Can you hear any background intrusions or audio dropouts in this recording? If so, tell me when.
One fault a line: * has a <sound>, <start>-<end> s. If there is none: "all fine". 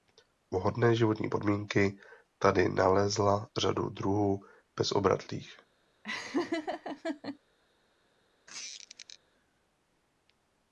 * has a laugh, 6.0-7.4 s
* has a squeak, 8.5-9.2 s